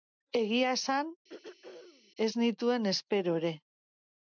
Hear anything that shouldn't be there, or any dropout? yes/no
yes